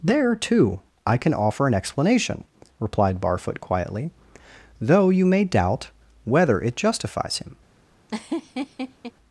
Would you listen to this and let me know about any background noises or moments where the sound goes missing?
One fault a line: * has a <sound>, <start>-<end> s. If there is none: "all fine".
* has a laugh, 8.1-9.1 s